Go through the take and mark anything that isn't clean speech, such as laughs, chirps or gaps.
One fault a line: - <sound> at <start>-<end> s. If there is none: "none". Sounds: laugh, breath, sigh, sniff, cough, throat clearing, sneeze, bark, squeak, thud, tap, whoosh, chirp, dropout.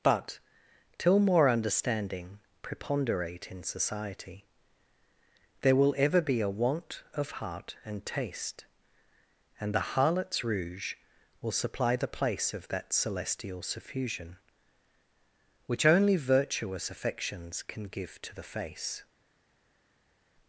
none